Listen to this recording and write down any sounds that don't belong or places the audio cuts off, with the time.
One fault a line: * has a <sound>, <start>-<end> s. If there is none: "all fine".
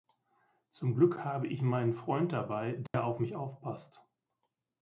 * has a dropout, 2.9-2.9 s